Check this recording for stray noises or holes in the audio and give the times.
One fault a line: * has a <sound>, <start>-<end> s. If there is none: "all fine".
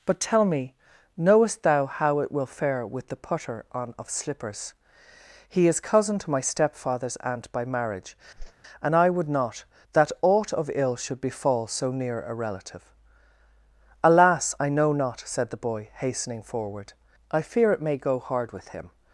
* has a whoosh, 8.4-8.5 s